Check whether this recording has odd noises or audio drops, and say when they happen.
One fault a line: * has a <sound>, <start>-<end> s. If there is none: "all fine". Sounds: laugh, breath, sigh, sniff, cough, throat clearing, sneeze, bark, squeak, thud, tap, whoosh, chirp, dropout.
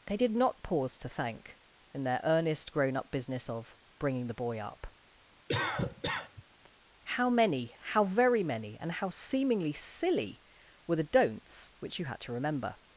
* has a cough, 5.5-6.4 s